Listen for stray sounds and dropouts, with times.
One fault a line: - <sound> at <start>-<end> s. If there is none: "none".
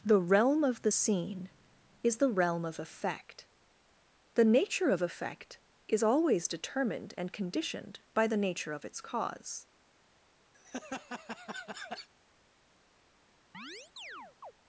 - laugh at 10.5-12.1 s
- chirp at 13.5-14.5 s